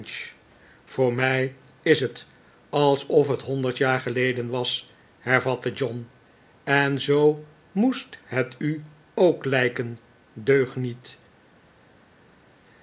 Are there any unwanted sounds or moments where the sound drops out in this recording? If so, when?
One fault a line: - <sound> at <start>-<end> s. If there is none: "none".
none